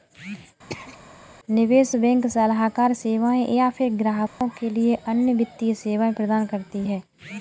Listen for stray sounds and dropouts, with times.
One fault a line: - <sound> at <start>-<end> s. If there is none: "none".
- throat clearing at 0.7-1.0 s
- dropout at 4.3-4.4 s